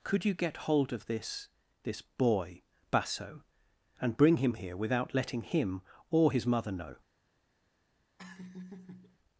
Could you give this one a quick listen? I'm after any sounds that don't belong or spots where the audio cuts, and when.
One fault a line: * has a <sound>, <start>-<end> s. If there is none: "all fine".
* has a laugh, 8.2-9.2 s